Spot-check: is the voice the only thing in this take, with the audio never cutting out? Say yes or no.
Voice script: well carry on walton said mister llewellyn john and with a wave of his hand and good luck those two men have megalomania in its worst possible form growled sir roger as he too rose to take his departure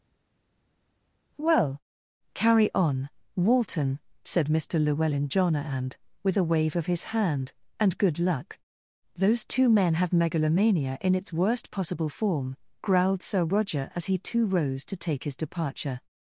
yes